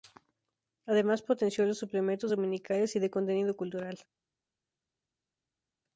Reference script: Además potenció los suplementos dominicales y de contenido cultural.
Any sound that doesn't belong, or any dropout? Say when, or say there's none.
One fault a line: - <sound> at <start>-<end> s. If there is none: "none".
none